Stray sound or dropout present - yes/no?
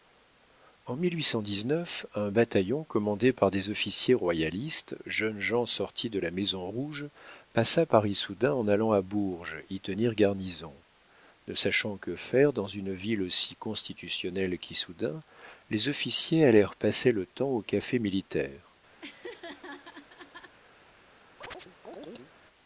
yes